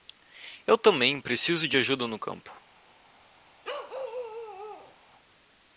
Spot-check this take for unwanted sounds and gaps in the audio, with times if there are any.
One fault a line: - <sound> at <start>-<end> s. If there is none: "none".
- bark at 3.6-5.0 s